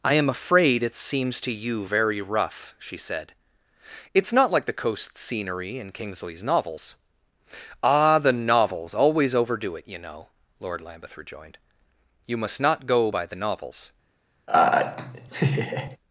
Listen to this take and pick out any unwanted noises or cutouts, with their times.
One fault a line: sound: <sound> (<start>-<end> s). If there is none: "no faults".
sound: laugh (14.5-16.0 s)